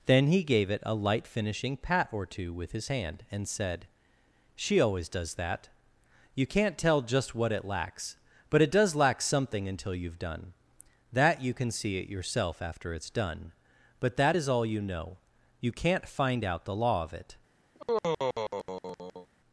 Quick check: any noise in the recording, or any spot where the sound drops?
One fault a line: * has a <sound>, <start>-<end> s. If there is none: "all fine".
* has a sigh, 17.7-19.3 s